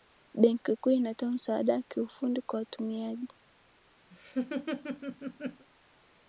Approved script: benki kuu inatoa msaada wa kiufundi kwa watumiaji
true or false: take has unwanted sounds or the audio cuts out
true